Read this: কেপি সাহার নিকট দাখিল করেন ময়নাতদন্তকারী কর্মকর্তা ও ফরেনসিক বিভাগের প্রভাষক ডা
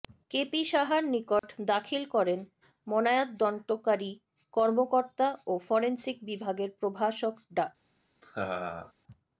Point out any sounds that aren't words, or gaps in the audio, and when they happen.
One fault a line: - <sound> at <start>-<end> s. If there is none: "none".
- dropout at 1.4-1.4 s
- laugh at 8.2-8.9 s